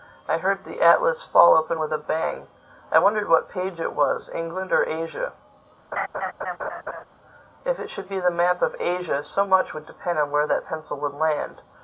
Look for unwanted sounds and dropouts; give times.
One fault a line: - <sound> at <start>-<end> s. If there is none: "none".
- laugh at 5.9-7.0 s